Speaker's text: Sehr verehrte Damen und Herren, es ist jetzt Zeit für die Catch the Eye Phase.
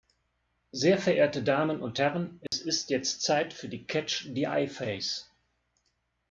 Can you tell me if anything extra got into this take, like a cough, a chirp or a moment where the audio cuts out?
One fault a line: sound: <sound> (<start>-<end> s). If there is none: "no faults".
sound: dropout (2.5-2.5 s)